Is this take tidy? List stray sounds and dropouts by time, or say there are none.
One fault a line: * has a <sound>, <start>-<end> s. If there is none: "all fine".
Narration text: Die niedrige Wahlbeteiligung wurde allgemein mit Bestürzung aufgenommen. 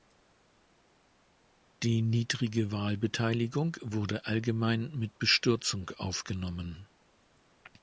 all fine